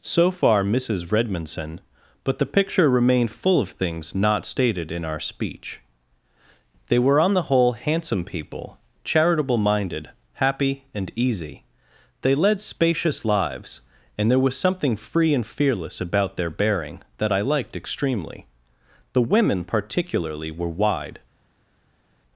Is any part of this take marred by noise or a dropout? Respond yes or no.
no